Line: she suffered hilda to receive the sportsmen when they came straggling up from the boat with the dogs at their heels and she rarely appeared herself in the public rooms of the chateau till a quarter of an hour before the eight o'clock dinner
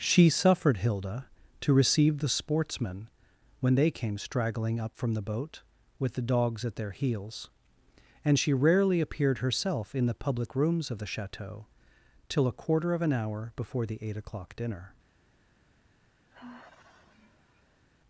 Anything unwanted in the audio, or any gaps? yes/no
yes